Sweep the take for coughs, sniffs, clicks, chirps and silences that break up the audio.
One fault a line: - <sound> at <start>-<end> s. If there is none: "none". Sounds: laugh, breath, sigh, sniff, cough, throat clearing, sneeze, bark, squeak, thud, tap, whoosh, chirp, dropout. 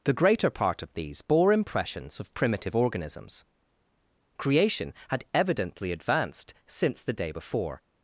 none